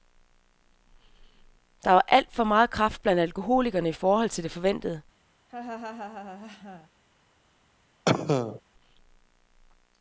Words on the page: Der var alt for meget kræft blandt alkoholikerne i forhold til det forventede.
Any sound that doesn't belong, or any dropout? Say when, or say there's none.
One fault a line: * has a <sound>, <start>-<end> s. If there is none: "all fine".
* has a laugh, 5.5-6.9 s
* has a cough, 8.1-8.6 s